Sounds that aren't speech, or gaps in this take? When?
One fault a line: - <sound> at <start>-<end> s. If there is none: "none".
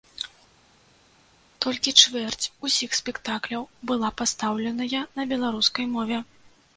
none